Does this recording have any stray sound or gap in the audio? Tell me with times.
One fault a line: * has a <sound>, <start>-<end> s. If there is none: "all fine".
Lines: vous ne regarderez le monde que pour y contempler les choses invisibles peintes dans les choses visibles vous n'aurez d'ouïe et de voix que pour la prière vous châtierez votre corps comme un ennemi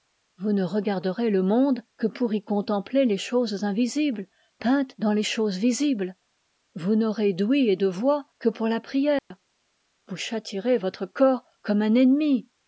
* has a dropout, 9.2-9.3 s